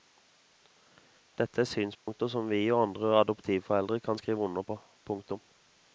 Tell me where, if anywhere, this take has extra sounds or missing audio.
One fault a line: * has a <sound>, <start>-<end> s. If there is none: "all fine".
* has a dropout, 1.9-2.1 s